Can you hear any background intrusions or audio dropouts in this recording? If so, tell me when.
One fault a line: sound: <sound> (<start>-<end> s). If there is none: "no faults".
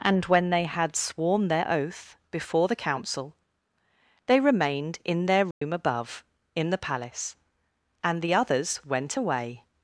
sound: dropout (5.5-5.6 s)